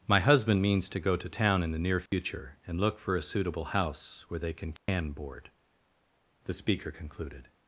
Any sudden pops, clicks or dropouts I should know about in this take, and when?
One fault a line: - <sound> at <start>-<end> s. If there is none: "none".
- dropout at 2.1-2.1 s
- dropout at 4.8-4.9 s